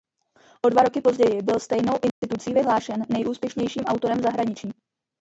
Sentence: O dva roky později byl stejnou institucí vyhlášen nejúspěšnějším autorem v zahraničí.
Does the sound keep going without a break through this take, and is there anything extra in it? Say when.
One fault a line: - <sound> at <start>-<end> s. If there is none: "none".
- dropout at 2.1-2.2 s